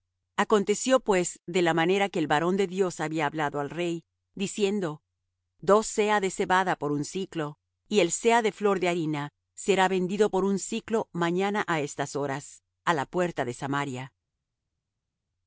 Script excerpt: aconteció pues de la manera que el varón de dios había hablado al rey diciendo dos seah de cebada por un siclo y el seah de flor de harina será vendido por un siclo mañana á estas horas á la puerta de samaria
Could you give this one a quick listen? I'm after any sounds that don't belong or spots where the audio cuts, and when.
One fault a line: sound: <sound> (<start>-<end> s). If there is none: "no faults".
no faults